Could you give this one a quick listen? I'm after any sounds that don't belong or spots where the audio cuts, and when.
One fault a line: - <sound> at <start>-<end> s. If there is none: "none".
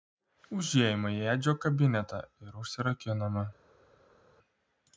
none